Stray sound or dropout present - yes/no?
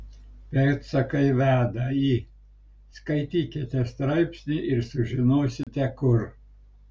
yes